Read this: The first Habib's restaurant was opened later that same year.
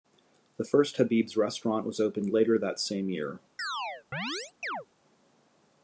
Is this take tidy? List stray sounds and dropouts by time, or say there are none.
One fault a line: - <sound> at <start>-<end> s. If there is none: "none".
- chirp at 3.6-4.9 s